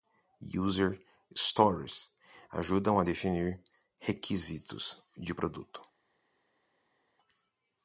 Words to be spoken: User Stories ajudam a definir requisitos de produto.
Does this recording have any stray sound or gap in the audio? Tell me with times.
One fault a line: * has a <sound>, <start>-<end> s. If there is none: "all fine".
all fine